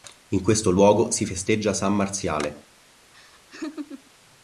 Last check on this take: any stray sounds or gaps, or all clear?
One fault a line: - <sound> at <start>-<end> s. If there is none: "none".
- laugh at 3.1-4.1 s